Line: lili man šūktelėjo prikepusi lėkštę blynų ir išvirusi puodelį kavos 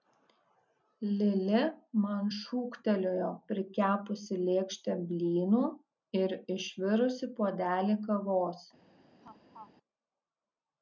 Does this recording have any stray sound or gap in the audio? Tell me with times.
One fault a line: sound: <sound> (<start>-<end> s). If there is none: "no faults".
sound: laugh (9.2-9.7 s)